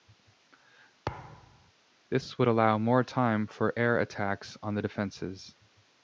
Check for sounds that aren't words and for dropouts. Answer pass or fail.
fail